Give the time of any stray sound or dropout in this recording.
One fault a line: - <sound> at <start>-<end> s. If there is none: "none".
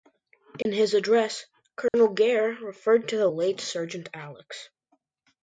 - dropout at 0.6-0.7 s
- dropout at 1.9-1.9 s